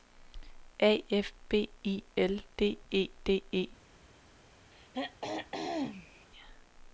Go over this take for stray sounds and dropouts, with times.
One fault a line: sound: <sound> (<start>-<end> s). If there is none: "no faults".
sound: throat clearing (4.7-6.3 s)